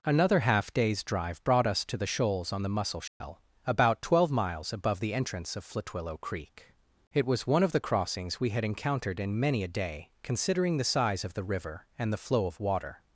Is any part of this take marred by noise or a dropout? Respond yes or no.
yes